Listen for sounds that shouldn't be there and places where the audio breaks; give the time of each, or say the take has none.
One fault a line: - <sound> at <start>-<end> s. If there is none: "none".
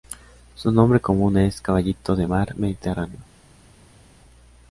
none